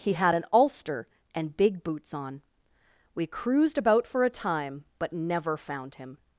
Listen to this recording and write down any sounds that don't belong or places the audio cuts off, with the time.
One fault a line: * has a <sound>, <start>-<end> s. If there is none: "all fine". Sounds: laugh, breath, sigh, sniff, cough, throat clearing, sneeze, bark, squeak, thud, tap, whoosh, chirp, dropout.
all fine